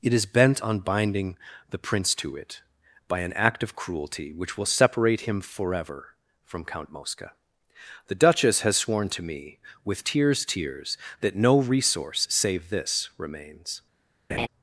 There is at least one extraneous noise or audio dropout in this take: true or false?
true